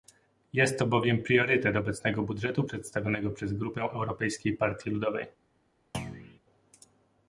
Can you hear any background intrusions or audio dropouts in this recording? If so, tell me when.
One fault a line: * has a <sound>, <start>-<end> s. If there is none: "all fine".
* has a thud, 5.9-6.4 s